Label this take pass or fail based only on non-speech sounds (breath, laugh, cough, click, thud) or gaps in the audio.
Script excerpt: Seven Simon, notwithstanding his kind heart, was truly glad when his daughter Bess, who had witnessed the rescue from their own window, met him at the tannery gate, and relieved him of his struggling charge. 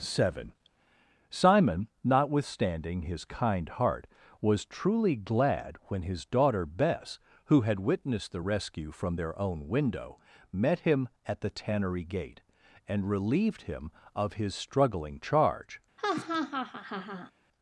fail